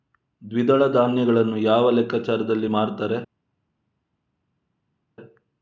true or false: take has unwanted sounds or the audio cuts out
false